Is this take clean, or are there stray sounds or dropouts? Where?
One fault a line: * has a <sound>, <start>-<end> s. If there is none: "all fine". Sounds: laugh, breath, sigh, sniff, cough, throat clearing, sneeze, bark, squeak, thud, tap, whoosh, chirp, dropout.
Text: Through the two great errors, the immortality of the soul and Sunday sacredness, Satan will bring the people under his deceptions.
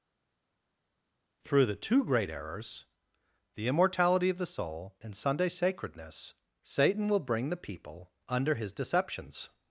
all fine